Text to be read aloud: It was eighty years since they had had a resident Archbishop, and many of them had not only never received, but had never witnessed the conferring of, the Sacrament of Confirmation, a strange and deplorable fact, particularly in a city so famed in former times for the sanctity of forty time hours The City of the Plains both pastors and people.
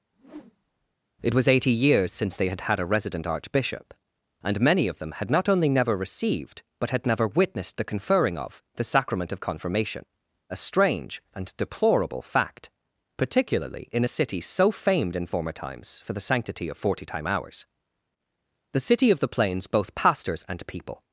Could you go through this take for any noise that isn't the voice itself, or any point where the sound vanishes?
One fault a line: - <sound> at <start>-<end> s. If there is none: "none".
- whoosh at 0.1-1.0 s